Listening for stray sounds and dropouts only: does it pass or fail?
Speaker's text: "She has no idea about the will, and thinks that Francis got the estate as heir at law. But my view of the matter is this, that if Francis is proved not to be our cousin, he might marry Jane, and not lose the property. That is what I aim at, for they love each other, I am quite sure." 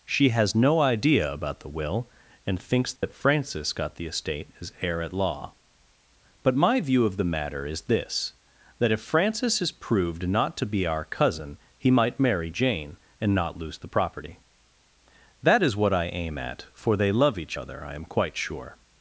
fail